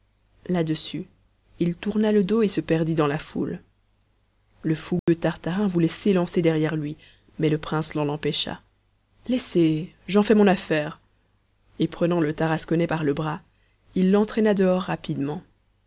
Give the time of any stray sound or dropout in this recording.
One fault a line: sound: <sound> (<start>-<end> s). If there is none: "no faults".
sound: dropout (5.0-5.1 s)